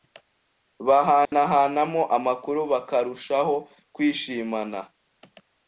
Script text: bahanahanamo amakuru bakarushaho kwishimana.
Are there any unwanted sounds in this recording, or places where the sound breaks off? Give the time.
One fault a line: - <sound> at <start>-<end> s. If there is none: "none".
- dropout at 1.2-1.3 s